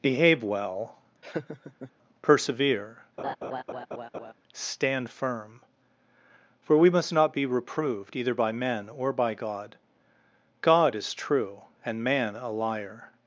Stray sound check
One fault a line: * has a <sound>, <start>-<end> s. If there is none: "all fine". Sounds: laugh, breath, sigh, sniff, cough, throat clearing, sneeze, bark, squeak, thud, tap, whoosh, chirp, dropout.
* has a laugh, 1.2-1.9 s
* has a laugh, 3.2-4.3 s